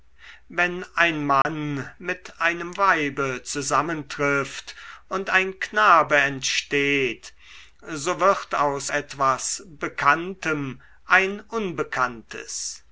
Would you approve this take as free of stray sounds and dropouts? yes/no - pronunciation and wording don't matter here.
no